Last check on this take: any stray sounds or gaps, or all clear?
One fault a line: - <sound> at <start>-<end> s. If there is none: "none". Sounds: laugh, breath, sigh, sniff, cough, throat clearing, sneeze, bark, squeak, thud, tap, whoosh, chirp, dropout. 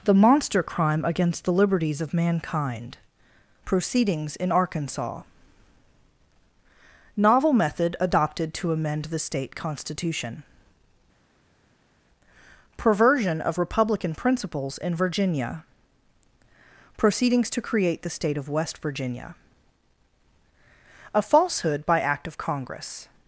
none